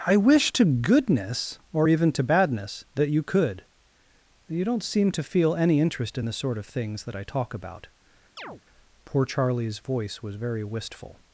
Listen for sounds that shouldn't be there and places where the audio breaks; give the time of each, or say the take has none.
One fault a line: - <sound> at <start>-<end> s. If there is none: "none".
- chirp at 8.4-8.6 s